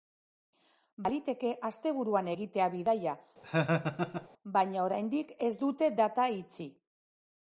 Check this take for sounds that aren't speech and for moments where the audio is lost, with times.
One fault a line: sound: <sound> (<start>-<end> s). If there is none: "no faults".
sound: laugh (3.4-4.3 s)